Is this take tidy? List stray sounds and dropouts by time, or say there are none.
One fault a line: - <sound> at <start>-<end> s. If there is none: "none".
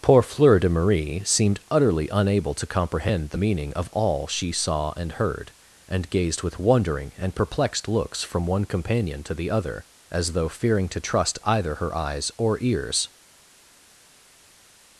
none